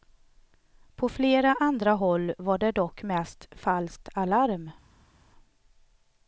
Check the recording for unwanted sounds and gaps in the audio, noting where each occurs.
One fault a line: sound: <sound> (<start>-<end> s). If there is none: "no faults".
no faults